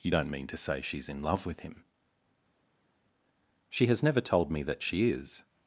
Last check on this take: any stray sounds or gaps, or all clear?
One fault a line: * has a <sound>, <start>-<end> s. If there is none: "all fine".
all fine